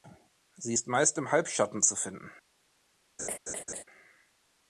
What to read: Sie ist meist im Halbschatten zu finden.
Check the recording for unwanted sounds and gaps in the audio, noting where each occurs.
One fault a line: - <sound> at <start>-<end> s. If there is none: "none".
- laugh at 3.2-3.8 s